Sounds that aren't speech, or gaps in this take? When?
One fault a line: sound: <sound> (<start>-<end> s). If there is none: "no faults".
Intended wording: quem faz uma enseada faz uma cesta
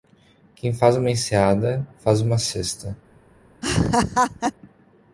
sound: laugh (3.6-4.5 s)